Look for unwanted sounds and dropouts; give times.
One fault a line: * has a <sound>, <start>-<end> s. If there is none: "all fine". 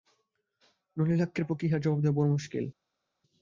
all fine